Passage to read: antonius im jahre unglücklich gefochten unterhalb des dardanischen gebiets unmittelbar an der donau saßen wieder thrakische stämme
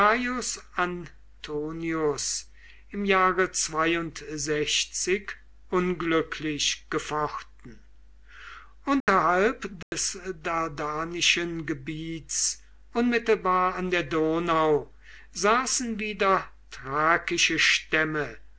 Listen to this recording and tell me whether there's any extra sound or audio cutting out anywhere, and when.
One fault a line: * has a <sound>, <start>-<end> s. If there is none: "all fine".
* has a dropout, 9.0-9.1 s
* has a dropout, 9.8-9.9 s